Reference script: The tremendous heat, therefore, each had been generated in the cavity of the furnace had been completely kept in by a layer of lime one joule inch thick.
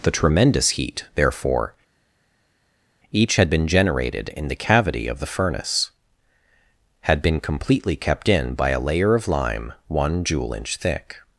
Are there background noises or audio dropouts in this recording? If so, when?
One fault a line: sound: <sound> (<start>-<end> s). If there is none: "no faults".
no faults